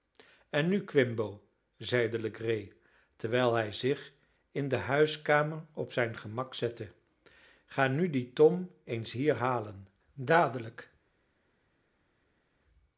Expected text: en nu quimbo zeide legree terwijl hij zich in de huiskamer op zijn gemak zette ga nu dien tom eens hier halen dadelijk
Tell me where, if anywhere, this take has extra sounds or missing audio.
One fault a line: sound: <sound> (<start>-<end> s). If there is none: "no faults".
no faults